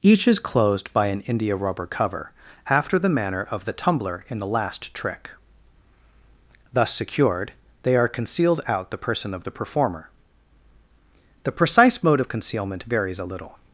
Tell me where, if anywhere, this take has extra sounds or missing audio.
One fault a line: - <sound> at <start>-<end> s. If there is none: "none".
none